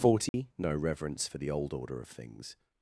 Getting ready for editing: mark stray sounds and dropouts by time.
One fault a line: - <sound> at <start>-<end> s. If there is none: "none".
- dropout at 0.3-0.3 s